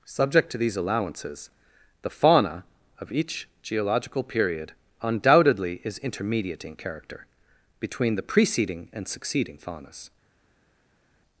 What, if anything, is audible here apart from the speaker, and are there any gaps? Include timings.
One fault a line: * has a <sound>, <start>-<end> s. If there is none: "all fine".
all fine